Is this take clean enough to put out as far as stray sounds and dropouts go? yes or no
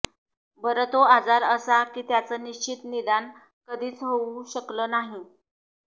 yes